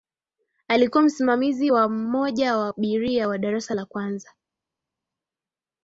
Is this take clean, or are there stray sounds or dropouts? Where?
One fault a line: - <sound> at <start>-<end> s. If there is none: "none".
none